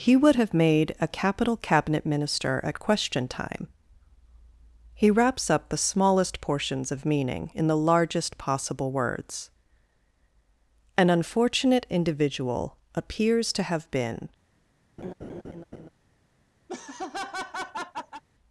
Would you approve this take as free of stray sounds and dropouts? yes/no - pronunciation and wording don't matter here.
no